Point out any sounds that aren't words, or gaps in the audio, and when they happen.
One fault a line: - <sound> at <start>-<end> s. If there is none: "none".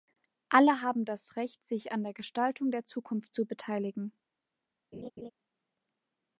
- laugh at 4.9-5.3 s